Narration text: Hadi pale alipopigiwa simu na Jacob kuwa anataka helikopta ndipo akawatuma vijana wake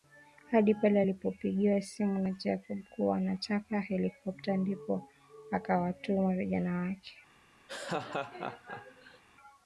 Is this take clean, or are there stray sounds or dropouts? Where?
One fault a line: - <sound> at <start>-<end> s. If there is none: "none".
- laugh at 7.7-9.2 s